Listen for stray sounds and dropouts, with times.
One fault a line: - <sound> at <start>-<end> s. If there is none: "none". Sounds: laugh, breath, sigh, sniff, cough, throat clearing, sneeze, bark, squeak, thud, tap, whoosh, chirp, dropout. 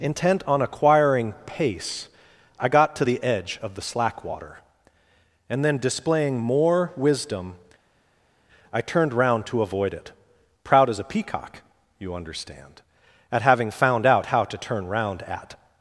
none